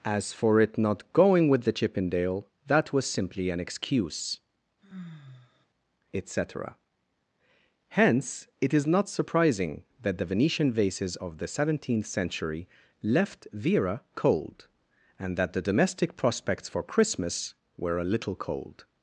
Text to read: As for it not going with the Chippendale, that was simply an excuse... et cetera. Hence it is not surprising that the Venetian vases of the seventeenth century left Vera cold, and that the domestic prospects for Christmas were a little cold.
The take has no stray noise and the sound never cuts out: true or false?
false